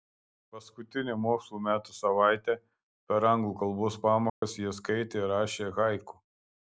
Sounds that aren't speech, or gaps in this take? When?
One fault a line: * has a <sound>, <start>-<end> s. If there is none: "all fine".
* has a dropout, 4.3-4.4 s